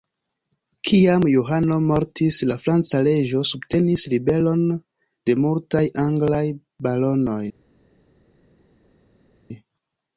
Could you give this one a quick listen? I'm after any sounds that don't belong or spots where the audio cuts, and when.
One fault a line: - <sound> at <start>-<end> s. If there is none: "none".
none